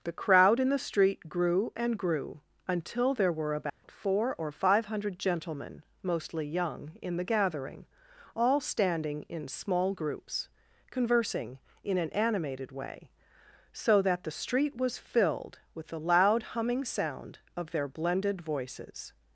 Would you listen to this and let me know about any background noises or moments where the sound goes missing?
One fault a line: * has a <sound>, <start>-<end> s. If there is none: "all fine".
* has a dropout, 3.7-3.8 s